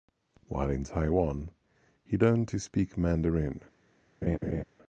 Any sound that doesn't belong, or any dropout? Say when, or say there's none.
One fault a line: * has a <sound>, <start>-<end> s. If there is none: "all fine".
* has a laugh, 4.2-4.6 s